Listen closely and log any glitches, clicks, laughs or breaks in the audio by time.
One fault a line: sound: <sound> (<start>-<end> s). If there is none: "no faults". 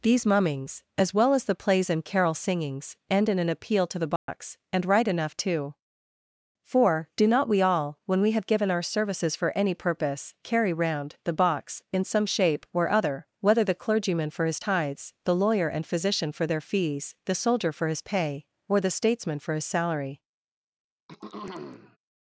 sound: dropout (4.2-4.3 s)
sound: throat clearing (21.1-22.0 s)